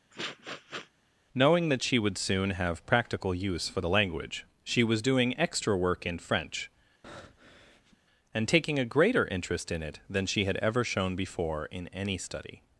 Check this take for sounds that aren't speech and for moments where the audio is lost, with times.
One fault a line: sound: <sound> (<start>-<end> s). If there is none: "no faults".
sound: sniff (0.1-0.9 s)
sound: breath (7.0-8.0 s)